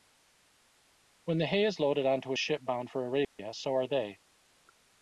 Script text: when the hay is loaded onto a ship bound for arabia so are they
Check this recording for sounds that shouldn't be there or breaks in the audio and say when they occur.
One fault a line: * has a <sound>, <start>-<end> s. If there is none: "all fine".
* has a dropout, 3.2-3.4 s